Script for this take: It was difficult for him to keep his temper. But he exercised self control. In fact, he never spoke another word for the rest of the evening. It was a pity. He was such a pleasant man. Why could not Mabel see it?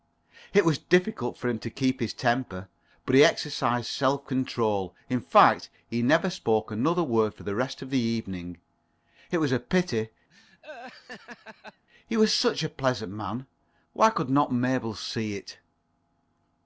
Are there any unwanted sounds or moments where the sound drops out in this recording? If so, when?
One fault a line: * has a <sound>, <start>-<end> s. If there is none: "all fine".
* has a laugh, 10.3-11.9 s